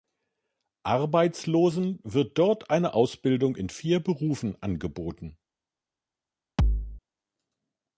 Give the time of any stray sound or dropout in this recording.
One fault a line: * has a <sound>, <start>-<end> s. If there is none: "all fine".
* has a thud, 6.6-7.0 s